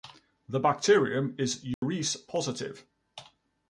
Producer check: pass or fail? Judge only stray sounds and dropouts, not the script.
fail